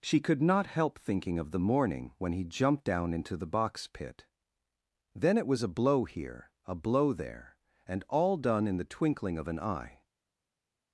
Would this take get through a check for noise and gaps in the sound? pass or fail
pass